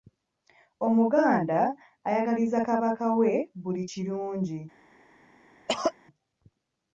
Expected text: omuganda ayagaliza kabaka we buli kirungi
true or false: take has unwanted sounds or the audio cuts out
true